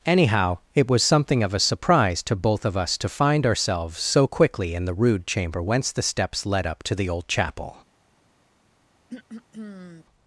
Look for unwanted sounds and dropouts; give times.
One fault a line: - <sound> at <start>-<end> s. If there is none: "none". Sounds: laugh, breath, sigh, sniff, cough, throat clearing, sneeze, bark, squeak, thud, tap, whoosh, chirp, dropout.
- throat clearing at 9.1-10.1 s